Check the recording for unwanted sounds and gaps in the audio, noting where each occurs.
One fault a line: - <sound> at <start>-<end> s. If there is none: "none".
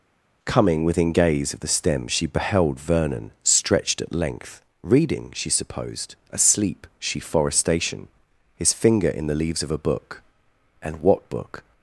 none